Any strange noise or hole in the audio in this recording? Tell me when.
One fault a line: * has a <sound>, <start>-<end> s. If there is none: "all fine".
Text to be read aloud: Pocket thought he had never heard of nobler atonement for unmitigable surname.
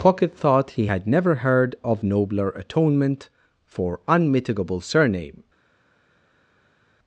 all fine